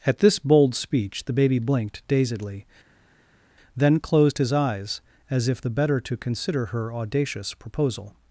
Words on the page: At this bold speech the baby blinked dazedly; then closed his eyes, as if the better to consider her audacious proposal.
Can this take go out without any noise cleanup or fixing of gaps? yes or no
yes